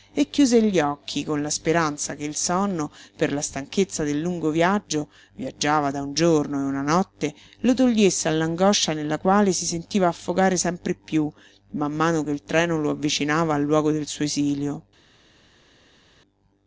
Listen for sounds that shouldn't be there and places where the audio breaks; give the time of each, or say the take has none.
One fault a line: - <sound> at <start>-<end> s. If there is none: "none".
none